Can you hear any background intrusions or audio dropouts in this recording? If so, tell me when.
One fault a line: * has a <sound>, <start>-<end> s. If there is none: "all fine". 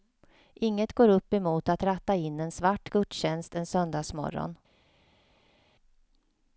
all fine